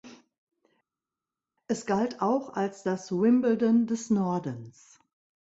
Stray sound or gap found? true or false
false